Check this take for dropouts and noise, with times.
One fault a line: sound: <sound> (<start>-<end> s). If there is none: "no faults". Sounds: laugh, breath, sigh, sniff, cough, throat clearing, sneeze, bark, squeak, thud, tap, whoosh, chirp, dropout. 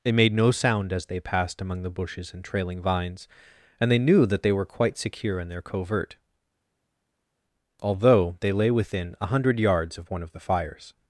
no faults